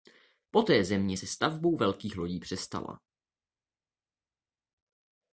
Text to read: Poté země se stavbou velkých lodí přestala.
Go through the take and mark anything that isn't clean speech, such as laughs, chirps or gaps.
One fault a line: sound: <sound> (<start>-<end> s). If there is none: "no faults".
no faults